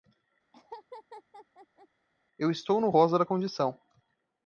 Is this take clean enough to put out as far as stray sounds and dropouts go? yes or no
no